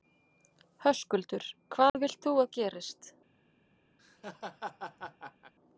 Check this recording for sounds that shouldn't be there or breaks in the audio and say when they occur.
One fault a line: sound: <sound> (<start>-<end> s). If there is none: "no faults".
sound: dropout (1.9-1.9 s)
sound: laugh (4.0-5.5 s)